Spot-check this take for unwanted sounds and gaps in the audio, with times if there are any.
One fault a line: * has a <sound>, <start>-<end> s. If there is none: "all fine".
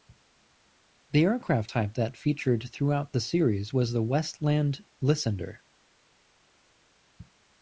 all fine